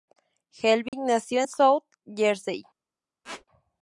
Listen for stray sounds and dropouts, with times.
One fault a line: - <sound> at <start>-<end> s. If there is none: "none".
- dropout at 0.9-0.9 s
- squeak at 3.2-3.5 s